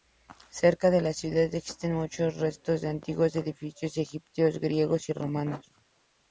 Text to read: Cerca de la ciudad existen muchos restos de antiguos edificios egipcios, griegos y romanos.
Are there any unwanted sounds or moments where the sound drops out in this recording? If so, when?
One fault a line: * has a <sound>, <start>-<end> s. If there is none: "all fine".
all fine